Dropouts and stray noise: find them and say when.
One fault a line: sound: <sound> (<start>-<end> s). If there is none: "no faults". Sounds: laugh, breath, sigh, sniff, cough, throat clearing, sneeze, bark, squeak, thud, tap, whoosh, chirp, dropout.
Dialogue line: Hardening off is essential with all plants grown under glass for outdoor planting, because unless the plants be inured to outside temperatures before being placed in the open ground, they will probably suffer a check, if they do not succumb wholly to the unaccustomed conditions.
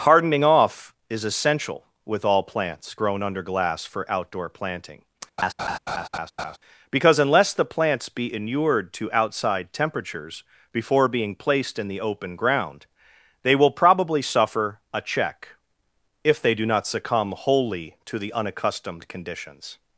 sound: laugh (5.4-6.6 s)